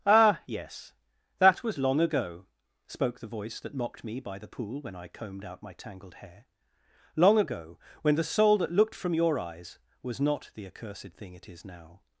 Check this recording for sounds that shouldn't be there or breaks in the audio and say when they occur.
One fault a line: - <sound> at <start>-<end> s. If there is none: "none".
none